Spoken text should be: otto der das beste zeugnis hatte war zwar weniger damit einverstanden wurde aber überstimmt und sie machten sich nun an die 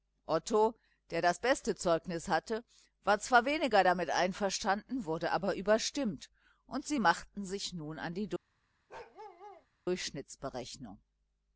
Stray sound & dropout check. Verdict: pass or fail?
fail